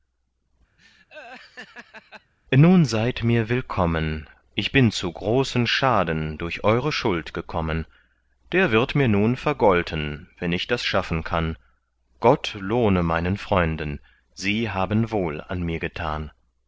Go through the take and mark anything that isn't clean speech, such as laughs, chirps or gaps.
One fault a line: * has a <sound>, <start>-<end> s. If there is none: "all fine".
* has a laugh, 0.8-2.3 s